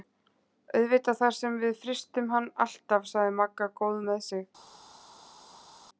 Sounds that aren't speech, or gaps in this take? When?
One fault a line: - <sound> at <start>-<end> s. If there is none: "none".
none